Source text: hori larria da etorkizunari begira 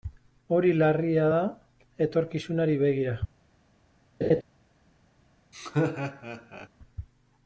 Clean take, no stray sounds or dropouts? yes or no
no